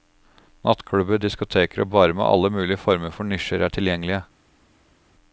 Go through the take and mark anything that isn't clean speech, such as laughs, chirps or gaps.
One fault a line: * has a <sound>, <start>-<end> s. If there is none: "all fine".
all fine